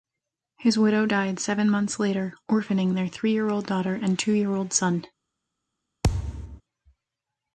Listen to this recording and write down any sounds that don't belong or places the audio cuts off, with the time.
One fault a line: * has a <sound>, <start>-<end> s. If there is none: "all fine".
* has a thud, 6.0-6.6 s